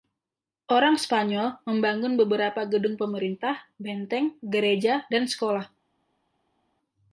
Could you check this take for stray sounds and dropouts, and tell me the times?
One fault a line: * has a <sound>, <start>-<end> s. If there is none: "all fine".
all fine